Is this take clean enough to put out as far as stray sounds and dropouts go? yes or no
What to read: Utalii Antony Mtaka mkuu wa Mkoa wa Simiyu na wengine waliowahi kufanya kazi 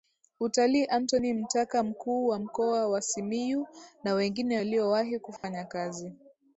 no